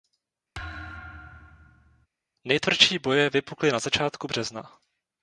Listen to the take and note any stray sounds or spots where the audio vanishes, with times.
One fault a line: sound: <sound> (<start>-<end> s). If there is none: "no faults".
sound: thud (0.5-2.1 s)